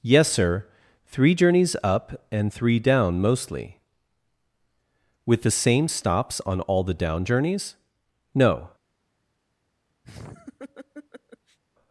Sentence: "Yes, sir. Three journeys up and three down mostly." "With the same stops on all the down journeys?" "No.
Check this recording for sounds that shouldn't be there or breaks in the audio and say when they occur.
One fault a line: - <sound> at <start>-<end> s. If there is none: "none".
- laugh at 10.0-11.6 s